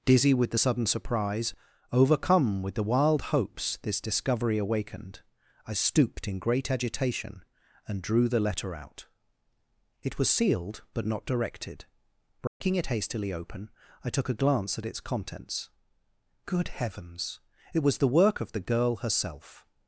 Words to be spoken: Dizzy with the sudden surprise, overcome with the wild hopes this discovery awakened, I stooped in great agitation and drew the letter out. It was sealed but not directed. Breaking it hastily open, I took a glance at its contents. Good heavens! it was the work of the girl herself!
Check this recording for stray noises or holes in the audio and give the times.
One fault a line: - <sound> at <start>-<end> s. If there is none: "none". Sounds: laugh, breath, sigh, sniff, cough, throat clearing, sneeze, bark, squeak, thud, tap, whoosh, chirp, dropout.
- dropout at 12.5-12.6 s